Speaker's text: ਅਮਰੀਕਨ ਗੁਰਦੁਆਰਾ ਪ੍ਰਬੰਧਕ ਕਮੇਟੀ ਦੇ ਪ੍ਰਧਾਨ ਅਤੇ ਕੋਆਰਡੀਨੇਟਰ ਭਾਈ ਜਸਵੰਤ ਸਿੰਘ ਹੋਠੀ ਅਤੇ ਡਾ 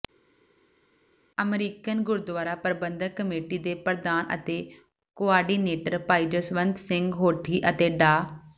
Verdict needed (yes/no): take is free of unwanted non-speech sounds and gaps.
yes